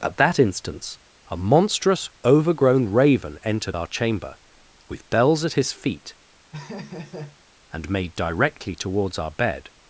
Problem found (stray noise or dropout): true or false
true